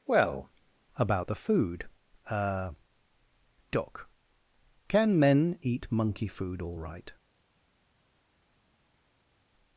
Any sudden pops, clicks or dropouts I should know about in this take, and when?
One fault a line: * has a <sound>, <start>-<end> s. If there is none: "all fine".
all fine